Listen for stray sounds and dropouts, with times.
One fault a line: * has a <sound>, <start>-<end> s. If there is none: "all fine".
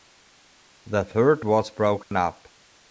* has a dropout, 2.0-2.1 s